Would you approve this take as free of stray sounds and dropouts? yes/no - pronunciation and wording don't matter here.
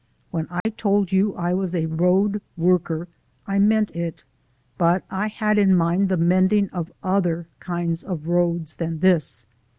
no